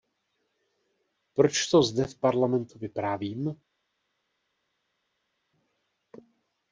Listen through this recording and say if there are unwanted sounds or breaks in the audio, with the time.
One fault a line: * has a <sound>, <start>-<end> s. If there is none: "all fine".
all fine